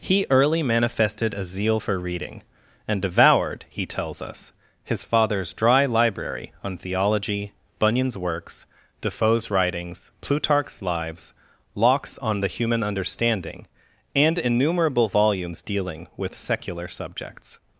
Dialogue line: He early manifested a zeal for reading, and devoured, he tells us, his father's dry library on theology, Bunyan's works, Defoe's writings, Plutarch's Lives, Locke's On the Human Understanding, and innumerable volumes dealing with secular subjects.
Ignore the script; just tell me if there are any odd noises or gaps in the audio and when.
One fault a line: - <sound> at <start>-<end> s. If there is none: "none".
none